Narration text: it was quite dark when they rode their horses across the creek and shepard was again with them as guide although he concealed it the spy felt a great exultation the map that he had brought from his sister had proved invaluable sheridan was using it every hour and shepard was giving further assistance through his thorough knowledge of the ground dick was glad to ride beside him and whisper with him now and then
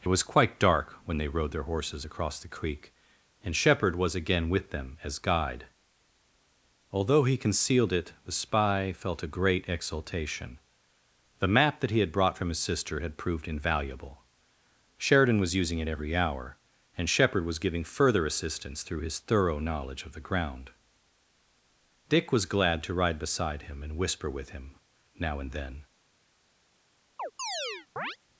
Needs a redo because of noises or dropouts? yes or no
yes